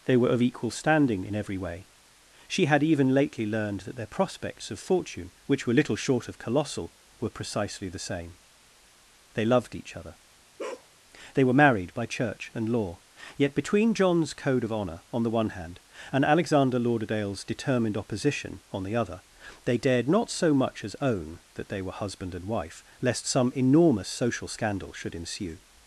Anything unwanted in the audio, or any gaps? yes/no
yes